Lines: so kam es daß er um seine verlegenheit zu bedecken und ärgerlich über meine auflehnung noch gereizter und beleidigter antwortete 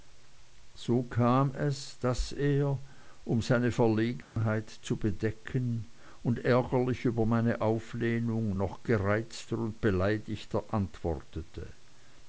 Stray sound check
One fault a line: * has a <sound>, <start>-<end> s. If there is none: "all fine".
* has a dropout, 4.2-4.4 s